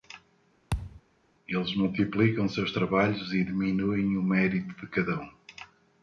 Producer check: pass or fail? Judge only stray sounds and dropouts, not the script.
fail